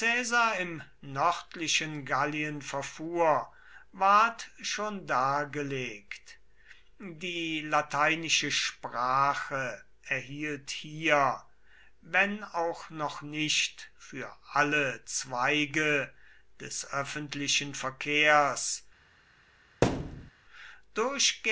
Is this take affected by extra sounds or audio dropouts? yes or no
yes